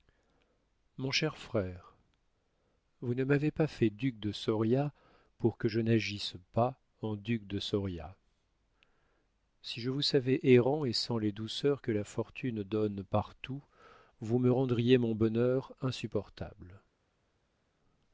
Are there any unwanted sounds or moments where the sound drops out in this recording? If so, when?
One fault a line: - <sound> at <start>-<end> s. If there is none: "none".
none